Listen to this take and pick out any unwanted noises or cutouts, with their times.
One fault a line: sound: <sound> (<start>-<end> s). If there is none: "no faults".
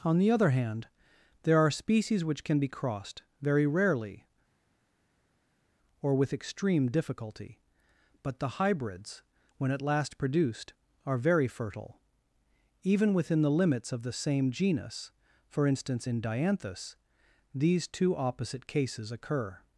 no faults